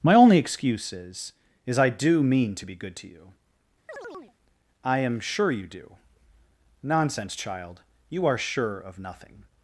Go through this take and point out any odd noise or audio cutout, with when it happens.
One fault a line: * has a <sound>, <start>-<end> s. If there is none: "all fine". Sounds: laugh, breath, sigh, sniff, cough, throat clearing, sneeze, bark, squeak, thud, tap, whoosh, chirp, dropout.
* has a chirp, 3.9-4.3 s